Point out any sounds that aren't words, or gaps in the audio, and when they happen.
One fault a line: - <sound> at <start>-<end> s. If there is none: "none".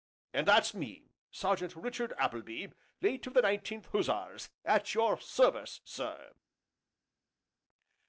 none